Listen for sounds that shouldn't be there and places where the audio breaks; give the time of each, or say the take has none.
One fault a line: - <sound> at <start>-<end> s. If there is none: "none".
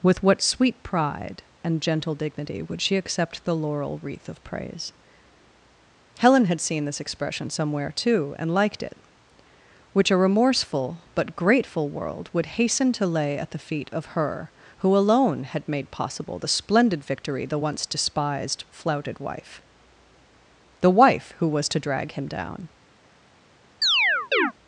- chirp at 23.8-24.5 s